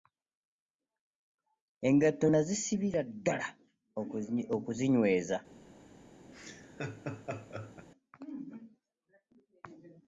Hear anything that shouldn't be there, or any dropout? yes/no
yes